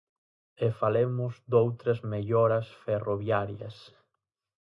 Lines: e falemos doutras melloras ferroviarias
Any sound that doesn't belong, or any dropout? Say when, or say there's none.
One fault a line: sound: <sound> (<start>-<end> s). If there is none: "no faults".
no faults